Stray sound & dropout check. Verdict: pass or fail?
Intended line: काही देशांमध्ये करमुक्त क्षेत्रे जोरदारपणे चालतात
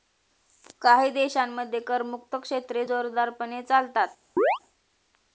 fail